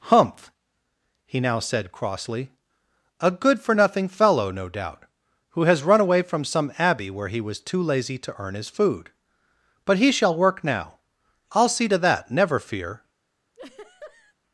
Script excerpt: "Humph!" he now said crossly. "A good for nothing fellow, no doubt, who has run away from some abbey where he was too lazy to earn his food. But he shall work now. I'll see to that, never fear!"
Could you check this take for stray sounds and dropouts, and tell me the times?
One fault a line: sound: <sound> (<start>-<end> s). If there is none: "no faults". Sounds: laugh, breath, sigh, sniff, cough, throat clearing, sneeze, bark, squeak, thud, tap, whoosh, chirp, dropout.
sound: laugh (13.5-14.3 s)